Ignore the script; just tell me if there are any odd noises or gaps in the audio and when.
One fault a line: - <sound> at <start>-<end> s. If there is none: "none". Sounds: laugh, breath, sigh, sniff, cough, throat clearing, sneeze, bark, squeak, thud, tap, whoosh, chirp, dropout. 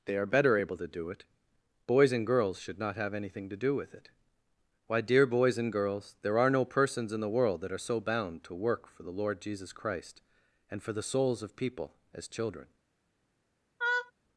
- laugh at 13.8-14.1 s